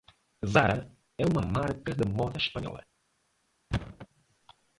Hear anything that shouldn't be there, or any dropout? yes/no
yes